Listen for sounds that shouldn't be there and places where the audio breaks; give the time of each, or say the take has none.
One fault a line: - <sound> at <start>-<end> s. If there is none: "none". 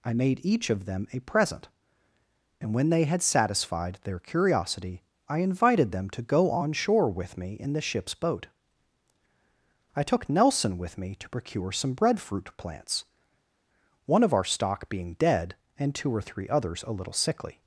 none